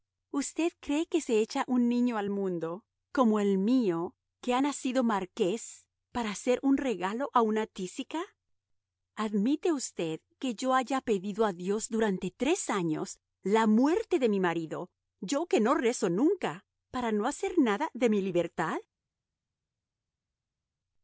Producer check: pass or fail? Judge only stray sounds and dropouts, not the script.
pass